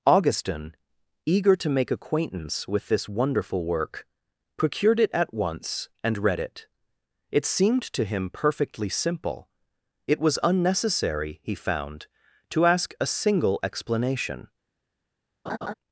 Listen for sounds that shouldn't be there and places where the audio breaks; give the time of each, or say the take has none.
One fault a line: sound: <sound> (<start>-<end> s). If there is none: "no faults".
sound: laugh (15.5-15.7 s)